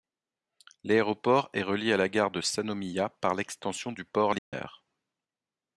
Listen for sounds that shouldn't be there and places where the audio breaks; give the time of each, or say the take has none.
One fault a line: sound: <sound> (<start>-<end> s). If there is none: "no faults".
sound: dropout (4.4-4.5 s)